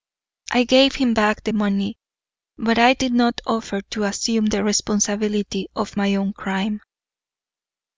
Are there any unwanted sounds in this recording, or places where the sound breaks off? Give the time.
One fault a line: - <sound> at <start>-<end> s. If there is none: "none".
none